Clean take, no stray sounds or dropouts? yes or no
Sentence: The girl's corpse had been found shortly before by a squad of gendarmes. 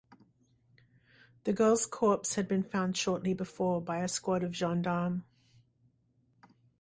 yes